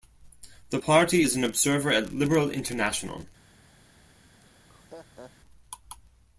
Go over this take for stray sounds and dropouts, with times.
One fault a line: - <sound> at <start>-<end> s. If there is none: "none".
- laugh at 4.4-5.3 s